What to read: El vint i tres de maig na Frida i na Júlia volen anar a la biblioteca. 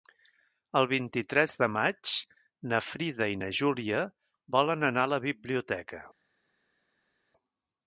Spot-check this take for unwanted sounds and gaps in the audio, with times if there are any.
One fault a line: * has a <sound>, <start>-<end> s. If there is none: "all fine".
all fine